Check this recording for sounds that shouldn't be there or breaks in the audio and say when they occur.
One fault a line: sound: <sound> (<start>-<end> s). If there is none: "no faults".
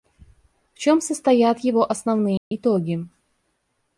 sound: dropout (2.4-2.5 s)